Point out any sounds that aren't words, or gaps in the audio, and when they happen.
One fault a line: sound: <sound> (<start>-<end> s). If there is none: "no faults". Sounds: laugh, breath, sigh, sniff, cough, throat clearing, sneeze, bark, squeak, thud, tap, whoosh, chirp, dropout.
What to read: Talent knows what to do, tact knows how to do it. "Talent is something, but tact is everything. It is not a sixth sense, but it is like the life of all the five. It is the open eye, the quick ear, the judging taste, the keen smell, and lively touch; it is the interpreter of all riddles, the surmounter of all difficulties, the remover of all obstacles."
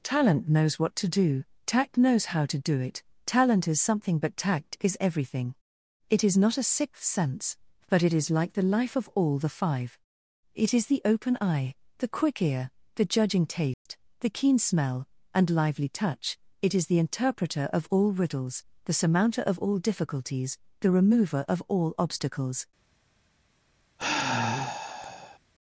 sound: dropout (13.7-13.9 s)
sound: sigh (24.0-25.4 s)